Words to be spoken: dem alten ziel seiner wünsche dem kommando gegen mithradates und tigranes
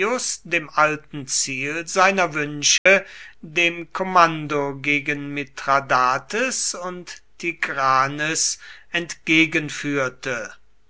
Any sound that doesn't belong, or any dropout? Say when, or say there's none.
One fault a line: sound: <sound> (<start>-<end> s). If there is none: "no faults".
sound: dropout (2.8-2.9 s)